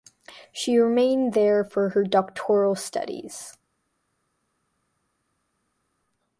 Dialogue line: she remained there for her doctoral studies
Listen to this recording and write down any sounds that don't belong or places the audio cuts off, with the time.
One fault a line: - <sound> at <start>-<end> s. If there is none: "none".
none